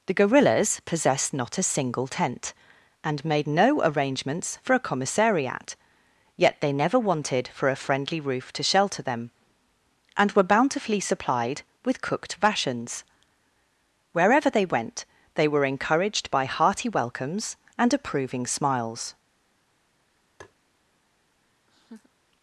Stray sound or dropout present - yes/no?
yes